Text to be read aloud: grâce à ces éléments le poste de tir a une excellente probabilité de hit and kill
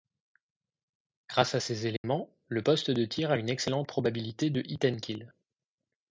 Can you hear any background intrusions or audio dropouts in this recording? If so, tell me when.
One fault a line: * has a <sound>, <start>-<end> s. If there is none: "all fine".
* has a dropout, 2.0-2.0 s